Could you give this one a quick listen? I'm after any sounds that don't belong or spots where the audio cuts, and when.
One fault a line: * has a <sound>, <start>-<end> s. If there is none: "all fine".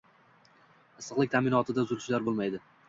all fine